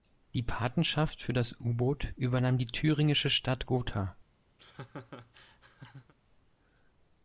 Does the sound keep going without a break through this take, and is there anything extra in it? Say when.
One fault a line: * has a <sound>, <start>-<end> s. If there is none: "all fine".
* has a laugh, 4.6-6.1 s